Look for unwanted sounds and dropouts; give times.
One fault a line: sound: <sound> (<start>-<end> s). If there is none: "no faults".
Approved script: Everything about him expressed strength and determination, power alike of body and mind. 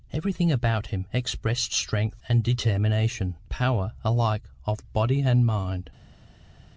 no faults